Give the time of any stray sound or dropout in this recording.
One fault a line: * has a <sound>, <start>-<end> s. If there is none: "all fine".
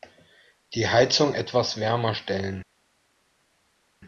all fine